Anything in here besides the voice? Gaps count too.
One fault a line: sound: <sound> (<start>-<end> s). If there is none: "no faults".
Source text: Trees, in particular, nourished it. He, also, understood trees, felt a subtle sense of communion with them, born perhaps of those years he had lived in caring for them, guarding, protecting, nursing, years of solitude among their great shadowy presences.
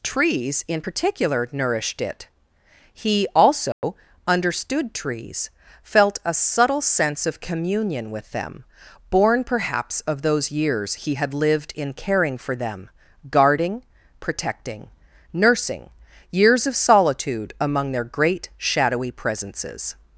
sound: dropout (3.7-3.8 s)